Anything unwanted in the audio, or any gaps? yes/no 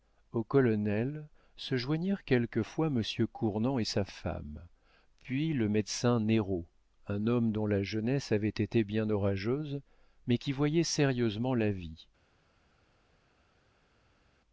no